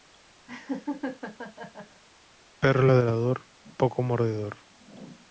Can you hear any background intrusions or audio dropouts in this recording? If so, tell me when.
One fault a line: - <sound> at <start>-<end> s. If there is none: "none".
- laugh at 0.5-2.0 s